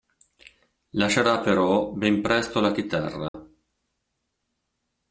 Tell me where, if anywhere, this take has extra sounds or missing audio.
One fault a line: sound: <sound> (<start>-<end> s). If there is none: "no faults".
sound: dropout (3.3-3.3 s)